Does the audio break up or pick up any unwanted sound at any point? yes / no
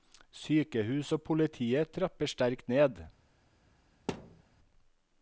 yes